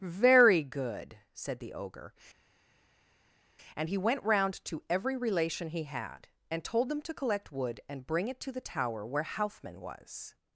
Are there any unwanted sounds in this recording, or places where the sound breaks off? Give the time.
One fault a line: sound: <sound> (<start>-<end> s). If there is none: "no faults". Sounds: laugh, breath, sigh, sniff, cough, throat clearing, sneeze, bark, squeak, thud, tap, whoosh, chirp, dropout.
no faults